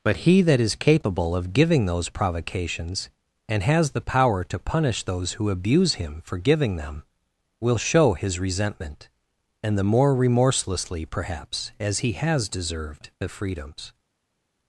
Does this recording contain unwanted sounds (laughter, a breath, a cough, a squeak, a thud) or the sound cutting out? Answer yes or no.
no